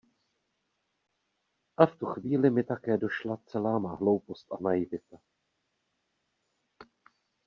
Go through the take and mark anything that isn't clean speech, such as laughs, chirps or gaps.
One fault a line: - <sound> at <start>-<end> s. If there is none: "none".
none